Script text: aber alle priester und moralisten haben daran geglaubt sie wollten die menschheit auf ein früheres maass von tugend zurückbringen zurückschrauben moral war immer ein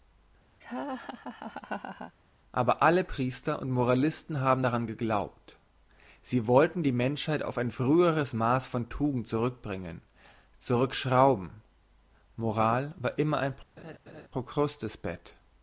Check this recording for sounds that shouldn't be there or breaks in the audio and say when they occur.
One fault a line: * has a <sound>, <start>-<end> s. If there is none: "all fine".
* has a laugh, 0.6-2.2 s
* has a laugh, 13.8-14.3 s